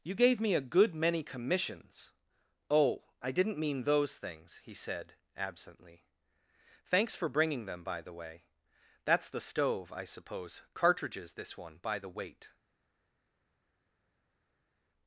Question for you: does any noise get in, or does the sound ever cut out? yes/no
no